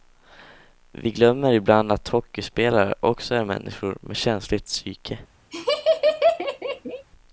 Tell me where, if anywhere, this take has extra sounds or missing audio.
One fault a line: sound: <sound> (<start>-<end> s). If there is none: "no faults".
sound: laugh (5.5-7.1 s)